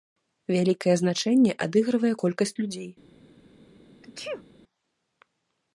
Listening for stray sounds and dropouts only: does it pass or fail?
fail